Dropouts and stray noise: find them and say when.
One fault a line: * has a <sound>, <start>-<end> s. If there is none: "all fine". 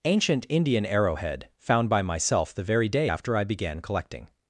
all fine